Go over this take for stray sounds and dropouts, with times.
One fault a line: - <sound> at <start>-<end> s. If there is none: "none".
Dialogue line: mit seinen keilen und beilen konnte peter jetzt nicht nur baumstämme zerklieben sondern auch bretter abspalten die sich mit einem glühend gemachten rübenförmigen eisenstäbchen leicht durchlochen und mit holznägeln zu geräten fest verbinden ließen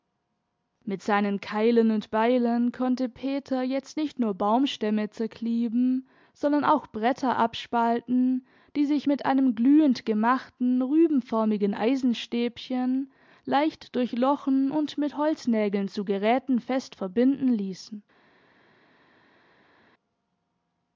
none